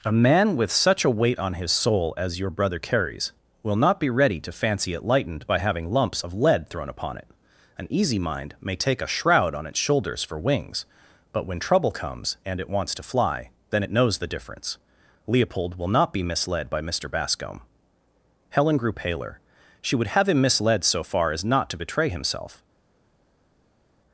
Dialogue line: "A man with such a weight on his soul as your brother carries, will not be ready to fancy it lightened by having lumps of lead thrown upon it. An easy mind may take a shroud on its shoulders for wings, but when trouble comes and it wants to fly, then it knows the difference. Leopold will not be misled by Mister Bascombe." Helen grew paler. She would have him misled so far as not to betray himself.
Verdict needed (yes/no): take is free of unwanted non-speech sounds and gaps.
yes